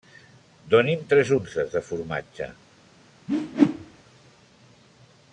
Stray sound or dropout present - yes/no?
yes